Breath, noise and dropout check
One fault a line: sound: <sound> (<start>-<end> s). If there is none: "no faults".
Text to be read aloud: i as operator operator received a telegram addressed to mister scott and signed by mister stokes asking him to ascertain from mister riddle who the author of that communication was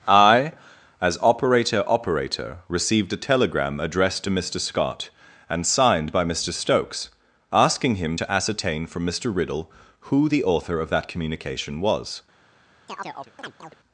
sound: chirp (12.9-13.8 s)